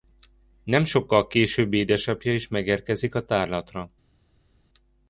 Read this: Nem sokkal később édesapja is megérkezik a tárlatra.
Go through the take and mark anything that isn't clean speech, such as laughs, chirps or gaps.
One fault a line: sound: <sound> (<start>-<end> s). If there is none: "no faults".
no faults